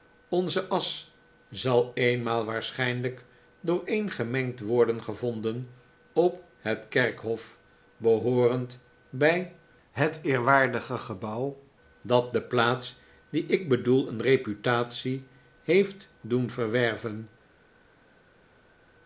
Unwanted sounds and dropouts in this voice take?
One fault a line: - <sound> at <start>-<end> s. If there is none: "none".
none